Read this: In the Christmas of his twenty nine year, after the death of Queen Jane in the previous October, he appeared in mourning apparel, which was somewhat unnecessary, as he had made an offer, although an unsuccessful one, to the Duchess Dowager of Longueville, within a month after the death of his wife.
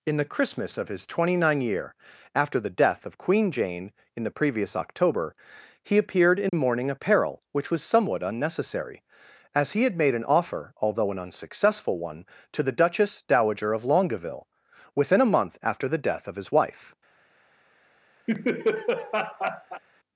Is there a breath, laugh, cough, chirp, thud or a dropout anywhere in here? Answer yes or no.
yes